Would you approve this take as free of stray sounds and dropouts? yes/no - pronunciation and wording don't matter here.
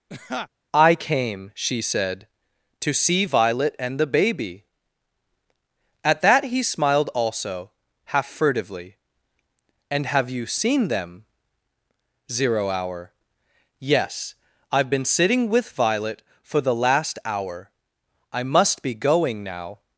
no